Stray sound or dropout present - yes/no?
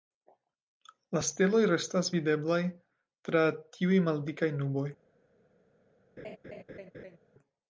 yes